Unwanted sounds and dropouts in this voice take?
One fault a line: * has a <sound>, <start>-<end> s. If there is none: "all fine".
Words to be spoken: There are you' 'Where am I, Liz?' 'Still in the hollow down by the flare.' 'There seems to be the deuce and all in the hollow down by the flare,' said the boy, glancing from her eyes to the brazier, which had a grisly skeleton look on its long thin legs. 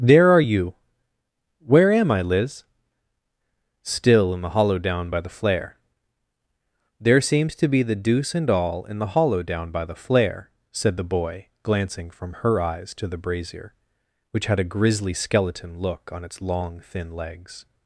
all fine